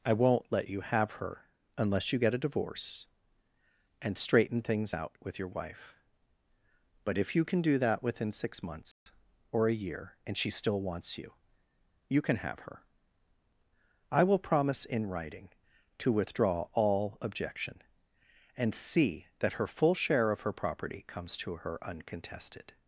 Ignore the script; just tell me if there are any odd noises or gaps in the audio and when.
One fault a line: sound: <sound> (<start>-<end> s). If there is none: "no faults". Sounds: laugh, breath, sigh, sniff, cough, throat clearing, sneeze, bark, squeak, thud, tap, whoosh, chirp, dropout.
sound: dropout (8.9-9.1 s)